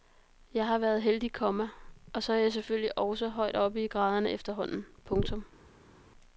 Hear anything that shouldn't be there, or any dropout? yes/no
no